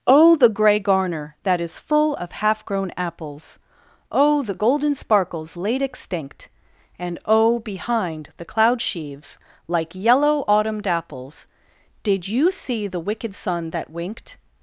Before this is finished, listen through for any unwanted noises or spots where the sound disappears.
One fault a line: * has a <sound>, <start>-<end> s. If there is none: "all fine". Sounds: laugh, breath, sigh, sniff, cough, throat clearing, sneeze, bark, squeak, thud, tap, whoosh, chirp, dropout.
all fine